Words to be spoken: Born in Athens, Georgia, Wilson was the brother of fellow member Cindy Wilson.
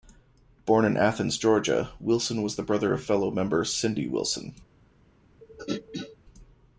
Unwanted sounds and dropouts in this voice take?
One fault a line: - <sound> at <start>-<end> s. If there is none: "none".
- throat clearing at 5.4-6.2 s